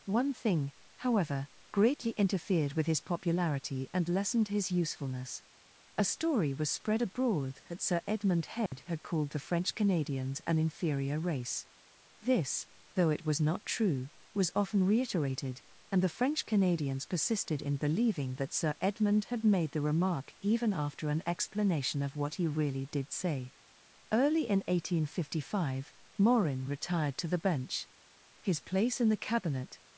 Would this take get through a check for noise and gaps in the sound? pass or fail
fail